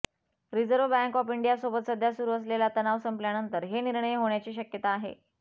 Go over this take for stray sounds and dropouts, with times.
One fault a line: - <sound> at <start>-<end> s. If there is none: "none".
none